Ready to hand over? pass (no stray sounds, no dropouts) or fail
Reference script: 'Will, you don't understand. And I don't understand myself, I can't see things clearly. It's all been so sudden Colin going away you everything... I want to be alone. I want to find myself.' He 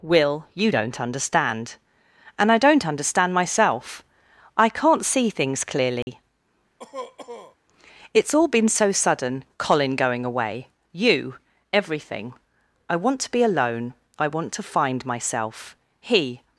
fail